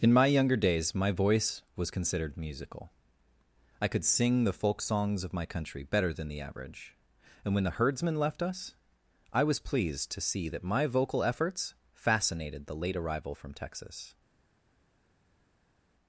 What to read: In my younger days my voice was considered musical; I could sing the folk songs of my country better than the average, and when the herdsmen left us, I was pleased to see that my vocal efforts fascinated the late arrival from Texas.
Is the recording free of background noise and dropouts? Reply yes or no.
yes